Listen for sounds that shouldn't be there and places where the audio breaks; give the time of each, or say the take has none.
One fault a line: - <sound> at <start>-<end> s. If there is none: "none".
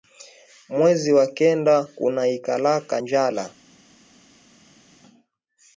none